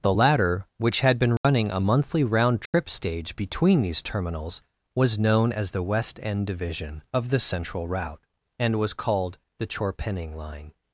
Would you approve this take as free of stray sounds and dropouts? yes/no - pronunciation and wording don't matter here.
no